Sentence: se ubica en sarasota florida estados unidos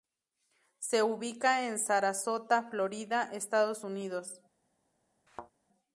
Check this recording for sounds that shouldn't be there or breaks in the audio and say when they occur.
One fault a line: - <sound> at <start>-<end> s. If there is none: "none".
- thud at 5.3-5.5 s